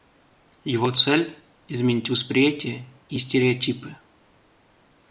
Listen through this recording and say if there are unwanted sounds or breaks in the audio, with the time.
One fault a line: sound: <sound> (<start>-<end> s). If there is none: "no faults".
no faults